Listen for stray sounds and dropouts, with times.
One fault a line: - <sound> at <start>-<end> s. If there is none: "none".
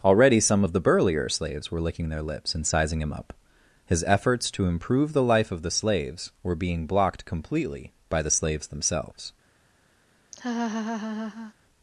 - laugh at 10.3-11.5 s